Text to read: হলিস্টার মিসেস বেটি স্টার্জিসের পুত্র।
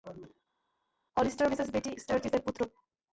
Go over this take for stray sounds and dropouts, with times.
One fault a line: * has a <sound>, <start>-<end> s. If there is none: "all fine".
all fine